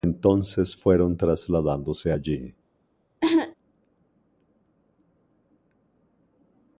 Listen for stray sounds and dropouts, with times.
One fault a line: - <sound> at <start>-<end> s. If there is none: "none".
- cough at 3.2-3.5 s